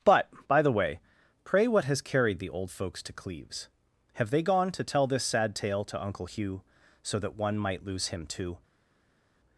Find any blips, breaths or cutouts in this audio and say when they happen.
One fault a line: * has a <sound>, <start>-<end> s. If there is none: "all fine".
all fine